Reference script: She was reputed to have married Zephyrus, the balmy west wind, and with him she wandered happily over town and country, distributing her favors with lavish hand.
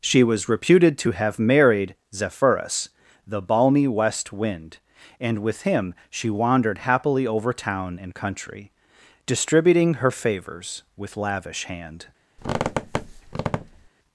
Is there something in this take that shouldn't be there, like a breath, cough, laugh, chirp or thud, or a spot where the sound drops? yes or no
yes